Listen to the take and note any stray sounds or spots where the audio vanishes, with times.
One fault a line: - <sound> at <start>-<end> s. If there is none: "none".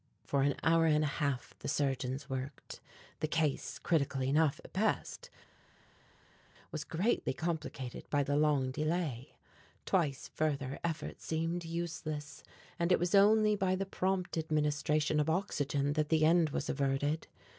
none